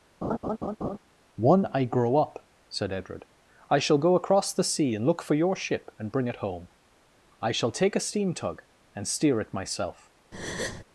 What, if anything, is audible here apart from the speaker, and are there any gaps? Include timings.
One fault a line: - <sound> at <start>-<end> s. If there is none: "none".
- laugh at 0.2-1.0 s
- breath at 10.3-10.8 s